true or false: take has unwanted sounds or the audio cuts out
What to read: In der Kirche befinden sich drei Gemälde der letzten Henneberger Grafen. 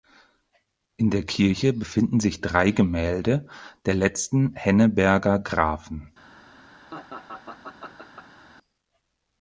true